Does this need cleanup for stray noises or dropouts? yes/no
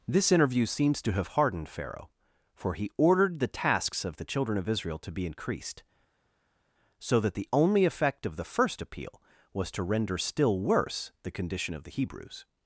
no